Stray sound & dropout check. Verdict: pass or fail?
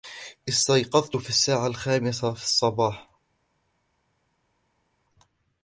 pass